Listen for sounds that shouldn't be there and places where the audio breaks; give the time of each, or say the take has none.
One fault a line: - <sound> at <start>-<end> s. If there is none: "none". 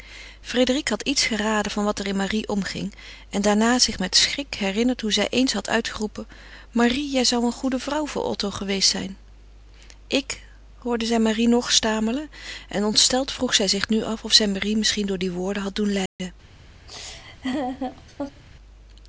- dropout at 16.1-16.2 s
- laugh at 16.9-18.4 s